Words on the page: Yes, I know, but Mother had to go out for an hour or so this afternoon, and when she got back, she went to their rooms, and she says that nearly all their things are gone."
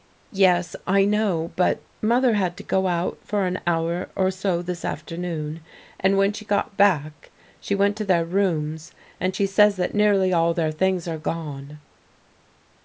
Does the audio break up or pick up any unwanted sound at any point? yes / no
no